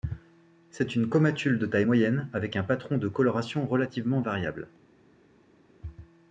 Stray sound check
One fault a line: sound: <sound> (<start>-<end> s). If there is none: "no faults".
no faults